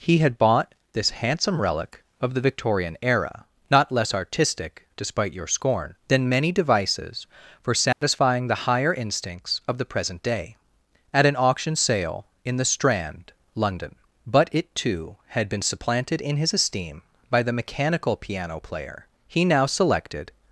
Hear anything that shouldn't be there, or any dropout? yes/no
yes